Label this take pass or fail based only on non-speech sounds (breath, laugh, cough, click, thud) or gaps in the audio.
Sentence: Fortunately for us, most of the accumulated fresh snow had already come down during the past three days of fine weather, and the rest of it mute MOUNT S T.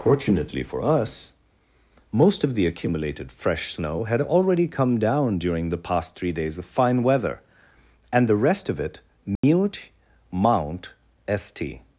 fail